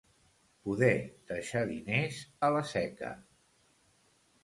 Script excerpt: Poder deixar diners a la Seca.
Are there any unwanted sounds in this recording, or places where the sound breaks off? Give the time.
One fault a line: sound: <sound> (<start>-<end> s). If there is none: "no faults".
no faults